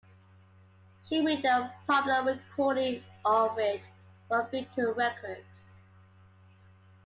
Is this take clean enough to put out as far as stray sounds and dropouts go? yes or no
yes